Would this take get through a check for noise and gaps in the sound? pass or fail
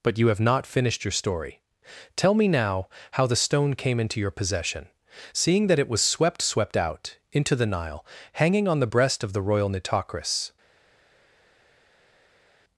pass